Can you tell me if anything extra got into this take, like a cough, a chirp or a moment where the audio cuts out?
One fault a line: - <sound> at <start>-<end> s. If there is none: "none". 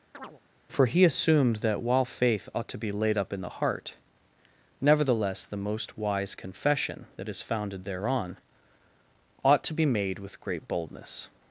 - chirp at 0.1-0.4 s